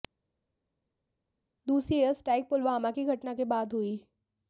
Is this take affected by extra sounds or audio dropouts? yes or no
no